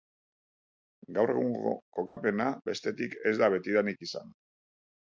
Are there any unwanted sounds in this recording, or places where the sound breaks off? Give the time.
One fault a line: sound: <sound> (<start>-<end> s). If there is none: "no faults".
sound: dropout (2.1-2.2 s)